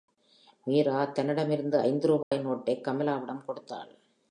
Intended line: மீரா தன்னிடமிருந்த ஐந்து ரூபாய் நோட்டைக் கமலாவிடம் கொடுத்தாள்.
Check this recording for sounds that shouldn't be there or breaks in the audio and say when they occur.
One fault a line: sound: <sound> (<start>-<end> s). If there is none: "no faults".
sound: dropout (2.2-2.3 s)